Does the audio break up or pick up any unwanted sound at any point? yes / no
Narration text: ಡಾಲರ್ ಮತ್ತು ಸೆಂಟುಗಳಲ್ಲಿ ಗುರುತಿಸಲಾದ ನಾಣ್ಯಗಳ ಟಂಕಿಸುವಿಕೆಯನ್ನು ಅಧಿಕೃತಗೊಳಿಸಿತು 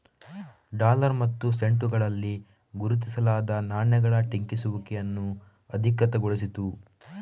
no